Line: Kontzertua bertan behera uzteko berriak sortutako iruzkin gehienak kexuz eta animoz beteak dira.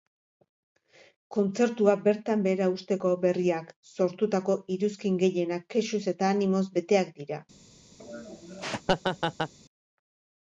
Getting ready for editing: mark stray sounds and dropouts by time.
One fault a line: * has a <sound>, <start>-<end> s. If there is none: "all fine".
* has a laugh, 8.0-9.5 s